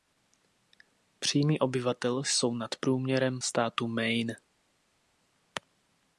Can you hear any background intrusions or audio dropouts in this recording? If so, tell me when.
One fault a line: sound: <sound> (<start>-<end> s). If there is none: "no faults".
no faults